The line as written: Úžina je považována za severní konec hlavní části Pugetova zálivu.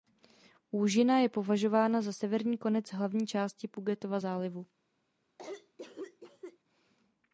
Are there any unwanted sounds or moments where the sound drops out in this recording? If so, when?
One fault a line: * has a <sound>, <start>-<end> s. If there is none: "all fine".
* has a cough, 5.4-6.6 s